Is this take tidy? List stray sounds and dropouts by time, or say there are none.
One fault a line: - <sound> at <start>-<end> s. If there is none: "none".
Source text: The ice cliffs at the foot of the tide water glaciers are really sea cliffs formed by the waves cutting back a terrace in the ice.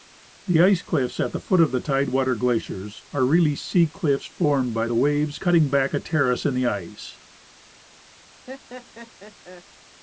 - laugh at 8.5-9.6 s